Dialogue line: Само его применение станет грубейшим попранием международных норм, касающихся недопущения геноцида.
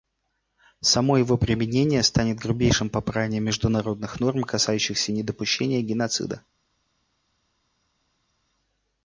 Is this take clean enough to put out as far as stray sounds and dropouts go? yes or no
yes